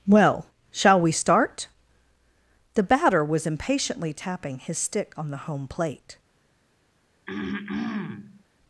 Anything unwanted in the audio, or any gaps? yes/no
yes